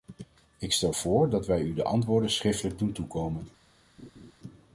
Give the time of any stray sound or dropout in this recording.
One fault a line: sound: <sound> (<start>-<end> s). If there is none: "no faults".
sound: laugh (4.0-4.3 s)